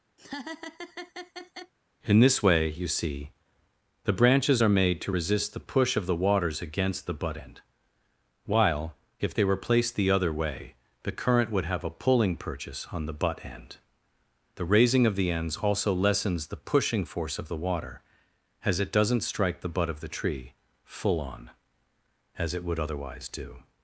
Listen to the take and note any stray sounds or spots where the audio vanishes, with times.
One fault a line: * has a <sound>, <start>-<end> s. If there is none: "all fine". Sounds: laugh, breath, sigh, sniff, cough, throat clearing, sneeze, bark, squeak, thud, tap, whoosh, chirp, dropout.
* has a laugh, 0.2-1.7 s